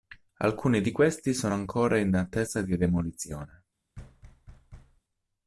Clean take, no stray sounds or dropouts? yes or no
no